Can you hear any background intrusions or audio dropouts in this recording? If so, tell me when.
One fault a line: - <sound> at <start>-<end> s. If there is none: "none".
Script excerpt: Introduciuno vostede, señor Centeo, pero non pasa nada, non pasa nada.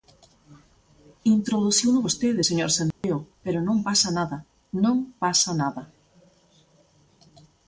- dropout at 2.9-3.0 s